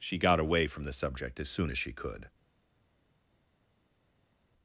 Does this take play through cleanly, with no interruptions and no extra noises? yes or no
yes